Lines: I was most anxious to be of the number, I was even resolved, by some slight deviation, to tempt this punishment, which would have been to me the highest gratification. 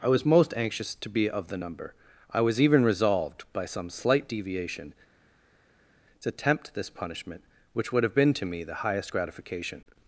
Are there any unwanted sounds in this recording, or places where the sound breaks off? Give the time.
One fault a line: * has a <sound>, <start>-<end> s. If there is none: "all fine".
all fine